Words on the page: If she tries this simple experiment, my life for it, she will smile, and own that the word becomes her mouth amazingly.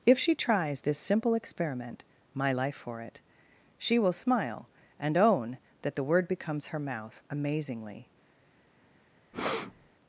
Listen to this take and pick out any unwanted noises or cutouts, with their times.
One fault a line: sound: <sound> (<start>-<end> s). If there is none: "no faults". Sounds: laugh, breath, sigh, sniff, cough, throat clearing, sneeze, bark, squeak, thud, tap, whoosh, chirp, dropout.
sound: breath (9.3-9.9 s)